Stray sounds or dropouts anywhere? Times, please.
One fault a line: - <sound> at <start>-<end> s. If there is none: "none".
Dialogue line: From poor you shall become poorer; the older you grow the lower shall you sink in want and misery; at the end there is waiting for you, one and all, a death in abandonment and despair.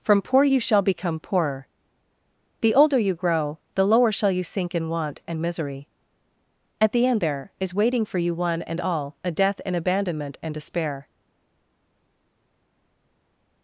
none